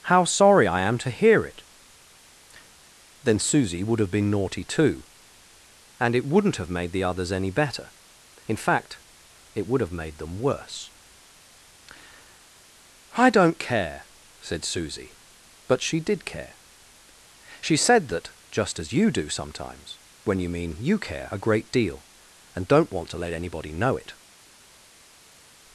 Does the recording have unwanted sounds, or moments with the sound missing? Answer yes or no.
no